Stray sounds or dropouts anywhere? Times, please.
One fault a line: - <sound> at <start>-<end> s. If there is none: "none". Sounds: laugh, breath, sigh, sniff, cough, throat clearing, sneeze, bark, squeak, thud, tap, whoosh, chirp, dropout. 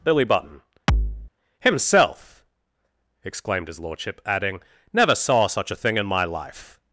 - thud at 0.9-1.3 s